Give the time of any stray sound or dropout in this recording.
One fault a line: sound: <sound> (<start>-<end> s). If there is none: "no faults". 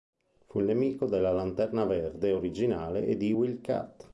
no faults